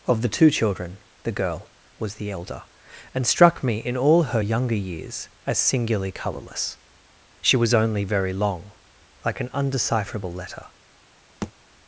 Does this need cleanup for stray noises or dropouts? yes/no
yes